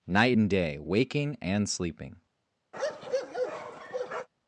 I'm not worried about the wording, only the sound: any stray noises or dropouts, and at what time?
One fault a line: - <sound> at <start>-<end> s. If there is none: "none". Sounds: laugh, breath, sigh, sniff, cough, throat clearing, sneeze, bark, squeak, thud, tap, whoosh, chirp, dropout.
- bark at 2.7-4.3 s